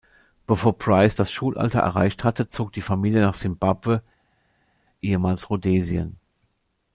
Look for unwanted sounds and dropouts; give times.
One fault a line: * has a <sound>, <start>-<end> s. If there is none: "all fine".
all fine